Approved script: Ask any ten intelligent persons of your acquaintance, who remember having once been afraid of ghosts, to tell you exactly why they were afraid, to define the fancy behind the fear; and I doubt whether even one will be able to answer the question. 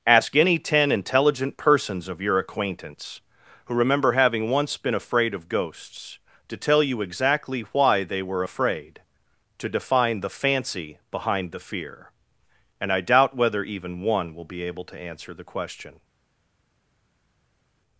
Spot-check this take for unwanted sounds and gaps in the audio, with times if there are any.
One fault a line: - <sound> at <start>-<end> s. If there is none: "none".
none